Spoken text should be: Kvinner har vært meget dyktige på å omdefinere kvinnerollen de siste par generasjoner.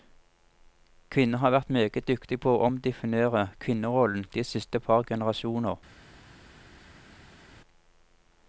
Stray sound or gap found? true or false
false